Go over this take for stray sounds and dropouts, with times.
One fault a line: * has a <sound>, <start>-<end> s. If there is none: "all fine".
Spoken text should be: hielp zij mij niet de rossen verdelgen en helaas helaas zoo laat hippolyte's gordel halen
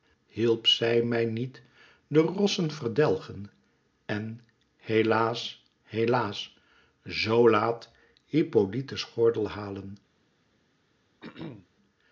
* has a throat clearing, 11.2-11.7 s